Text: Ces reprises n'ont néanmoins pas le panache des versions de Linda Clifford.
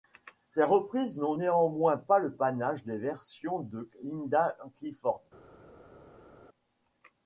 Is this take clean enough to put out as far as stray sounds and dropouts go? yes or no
yes